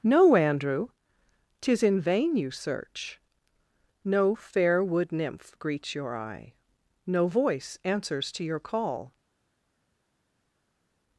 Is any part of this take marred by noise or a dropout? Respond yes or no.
no